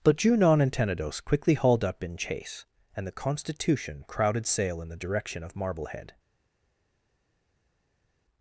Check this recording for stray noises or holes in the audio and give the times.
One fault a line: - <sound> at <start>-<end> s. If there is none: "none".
none